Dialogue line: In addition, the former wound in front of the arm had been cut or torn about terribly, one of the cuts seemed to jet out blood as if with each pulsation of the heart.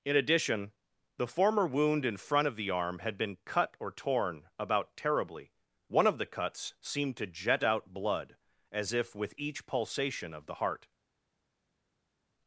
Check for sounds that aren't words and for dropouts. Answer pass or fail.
pass